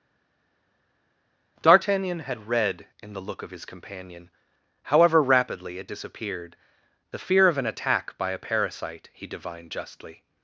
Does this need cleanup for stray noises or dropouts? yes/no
no